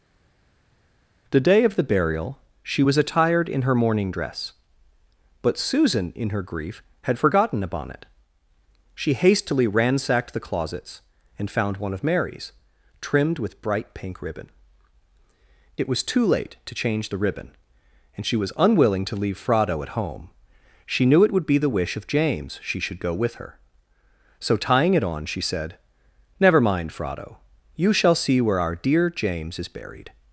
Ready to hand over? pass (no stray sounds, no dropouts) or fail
pass